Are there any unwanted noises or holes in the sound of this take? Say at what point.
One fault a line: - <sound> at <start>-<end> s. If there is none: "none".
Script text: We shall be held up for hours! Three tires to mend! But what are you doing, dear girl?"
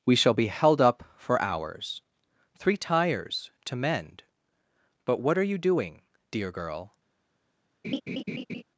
- laugh at 7.8-8.6 s